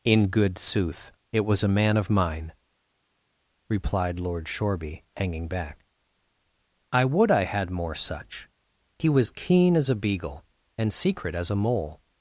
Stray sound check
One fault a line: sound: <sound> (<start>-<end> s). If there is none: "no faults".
no faults